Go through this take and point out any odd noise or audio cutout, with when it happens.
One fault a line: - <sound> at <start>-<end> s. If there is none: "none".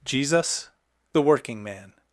none